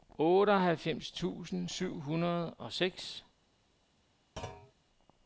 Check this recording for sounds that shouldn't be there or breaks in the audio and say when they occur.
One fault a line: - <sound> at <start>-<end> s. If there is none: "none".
- thud at 4.4-4.7 s